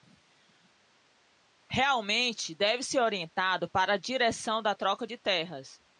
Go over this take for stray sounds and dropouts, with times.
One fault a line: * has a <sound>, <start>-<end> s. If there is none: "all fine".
all fine